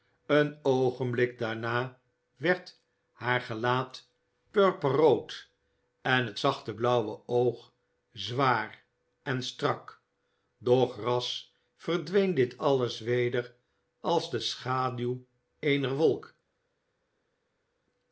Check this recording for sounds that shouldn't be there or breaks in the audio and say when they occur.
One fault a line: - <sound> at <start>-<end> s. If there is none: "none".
none